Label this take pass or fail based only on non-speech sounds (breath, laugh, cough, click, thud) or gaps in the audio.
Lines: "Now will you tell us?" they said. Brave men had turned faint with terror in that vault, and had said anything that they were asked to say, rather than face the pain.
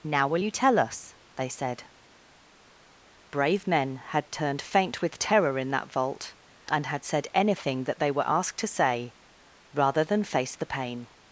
pass